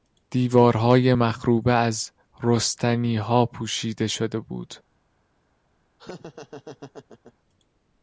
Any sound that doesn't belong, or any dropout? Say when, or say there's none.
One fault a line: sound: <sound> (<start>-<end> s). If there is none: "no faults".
sound: laugh (6.0-7.3 s)